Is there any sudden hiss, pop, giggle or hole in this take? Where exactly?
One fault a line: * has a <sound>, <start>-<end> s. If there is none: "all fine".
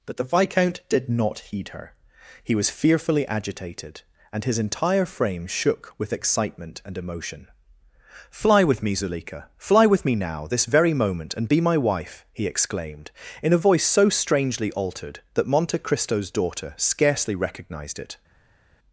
all fine